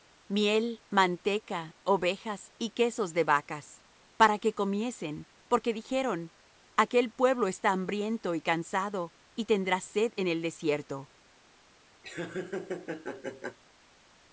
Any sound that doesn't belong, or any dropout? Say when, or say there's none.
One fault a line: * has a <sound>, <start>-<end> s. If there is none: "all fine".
* has a laugh, 12.0-13.6 s